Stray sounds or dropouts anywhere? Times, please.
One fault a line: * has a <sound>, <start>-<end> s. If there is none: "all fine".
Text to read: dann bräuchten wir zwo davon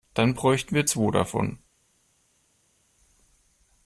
all fine